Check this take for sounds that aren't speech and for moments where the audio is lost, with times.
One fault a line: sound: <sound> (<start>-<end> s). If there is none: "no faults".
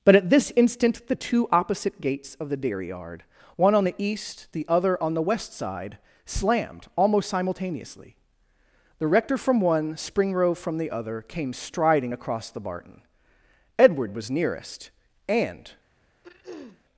sound: throat clearing (16.2-16.8 s)